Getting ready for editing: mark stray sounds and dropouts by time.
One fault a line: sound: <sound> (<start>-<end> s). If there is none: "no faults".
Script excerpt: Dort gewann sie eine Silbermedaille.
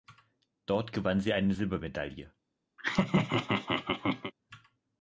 sound: laugh (2.8-4.3 s)